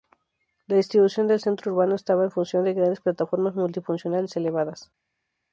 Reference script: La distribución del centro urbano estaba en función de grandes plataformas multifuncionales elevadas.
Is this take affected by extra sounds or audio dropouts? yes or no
no